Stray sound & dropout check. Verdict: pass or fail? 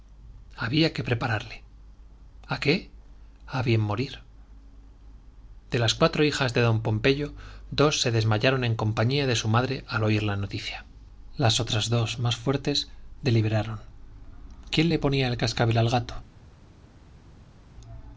pass